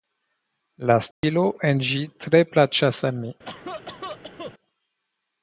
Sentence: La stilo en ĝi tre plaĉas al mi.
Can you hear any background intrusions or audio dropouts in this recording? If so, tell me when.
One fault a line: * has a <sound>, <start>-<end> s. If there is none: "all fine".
* has a dropout, 1.1-1.2 s
* has a cough, 3.5-4.5 s